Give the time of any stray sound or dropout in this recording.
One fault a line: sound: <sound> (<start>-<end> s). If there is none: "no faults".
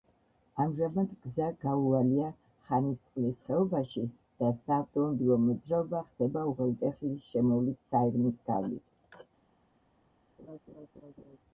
sound: laugh (10.4-11.4 s)